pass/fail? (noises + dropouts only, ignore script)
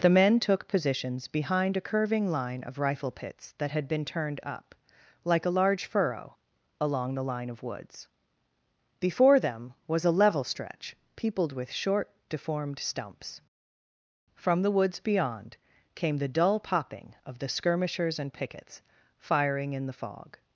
pass